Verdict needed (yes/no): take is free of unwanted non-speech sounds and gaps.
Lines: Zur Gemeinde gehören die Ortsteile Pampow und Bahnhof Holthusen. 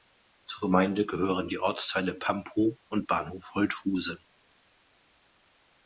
yes